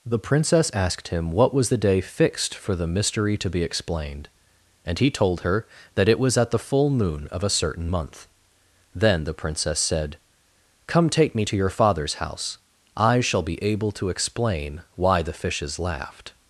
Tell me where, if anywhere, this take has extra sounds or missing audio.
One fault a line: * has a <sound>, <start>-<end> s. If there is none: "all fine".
all fine